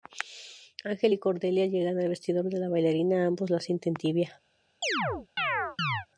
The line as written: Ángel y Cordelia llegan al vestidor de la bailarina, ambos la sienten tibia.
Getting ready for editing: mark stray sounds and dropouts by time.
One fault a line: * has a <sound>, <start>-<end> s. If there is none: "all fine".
* has a chirp, 4.8-6.1 s